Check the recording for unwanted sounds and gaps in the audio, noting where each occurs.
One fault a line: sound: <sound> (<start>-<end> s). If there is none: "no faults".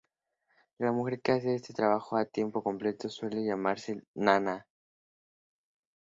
no faults